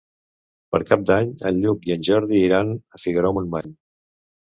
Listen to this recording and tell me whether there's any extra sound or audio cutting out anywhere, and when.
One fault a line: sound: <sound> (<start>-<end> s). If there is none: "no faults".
sound: dropout (3.6-3.6 s)